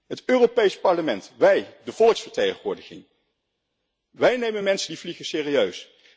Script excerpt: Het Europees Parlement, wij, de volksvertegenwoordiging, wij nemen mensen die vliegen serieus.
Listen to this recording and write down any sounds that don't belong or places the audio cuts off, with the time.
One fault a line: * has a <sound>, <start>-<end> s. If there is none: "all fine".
all fine